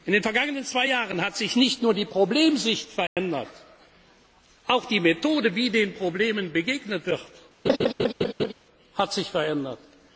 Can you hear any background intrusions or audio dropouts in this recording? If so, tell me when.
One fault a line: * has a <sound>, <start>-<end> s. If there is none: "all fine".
* has a dropout, 3.1-3.2 s
* has a laugh, 7.7-8.5 s